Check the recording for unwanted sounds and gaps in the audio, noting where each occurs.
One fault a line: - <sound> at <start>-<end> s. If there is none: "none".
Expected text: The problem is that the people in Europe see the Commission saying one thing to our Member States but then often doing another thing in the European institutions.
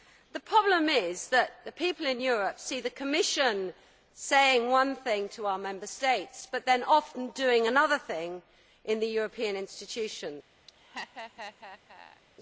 - laugh at 10.7-12.2 s